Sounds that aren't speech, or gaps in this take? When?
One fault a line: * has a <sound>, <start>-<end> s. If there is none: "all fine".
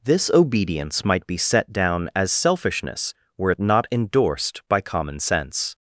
all fine